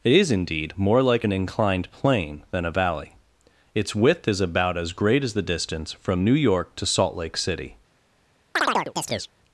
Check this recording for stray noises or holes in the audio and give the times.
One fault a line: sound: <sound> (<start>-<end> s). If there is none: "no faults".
sound: chirp (8.6-9.3 s)